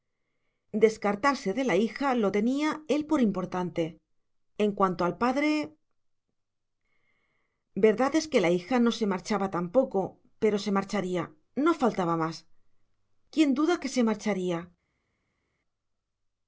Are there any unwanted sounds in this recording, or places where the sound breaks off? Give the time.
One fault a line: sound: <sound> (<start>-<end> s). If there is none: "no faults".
no faults